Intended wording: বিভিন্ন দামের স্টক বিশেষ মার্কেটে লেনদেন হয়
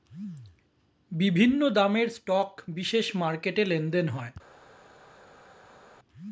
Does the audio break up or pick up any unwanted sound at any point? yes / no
no